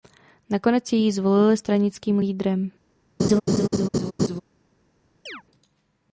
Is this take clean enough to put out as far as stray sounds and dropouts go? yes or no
no